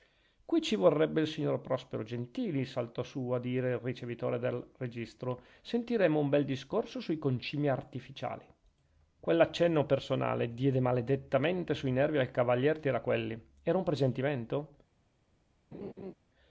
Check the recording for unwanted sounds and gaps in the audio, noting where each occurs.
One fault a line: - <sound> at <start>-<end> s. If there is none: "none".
- laugh at 15.7-16.1 s